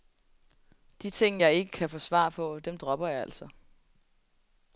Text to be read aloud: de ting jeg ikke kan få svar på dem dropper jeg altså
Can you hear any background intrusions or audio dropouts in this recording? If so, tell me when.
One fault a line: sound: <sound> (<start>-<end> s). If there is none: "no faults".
no faults